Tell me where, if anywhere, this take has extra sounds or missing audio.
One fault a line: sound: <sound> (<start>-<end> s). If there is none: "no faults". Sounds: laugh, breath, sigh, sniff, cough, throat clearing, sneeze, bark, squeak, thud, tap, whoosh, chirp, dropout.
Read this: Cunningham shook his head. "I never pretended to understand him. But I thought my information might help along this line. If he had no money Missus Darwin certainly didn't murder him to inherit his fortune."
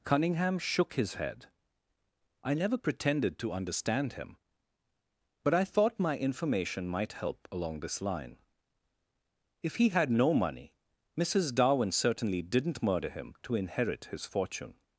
no faults